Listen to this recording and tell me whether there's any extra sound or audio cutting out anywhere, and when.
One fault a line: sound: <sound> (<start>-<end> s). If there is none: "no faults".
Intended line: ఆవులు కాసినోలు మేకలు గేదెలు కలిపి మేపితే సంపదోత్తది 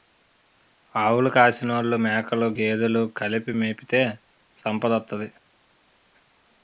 no faults